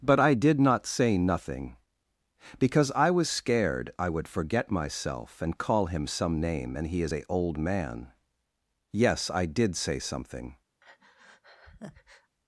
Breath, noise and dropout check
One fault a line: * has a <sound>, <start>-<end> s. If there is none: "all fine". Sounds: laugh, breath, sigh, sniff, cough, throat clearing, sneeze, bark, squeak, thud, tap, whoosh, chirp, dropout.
* has a breath, 10.8-12.4 s